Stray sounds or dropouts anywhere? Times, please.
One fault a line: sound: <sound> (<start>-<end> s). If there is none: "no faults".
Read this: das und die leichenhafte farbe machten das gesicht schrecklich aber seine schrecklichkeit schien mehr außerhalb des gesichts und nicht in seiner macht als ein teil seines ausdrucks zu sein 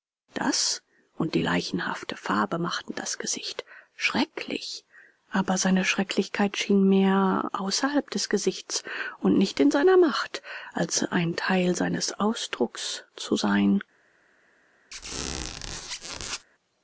sound: squeak (14.9-16.5 s)